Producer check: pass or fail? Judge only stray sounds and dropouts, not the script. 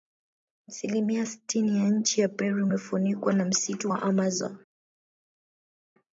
pass